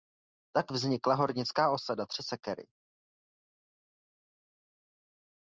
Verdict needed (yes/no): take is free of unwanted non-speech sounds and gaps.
yes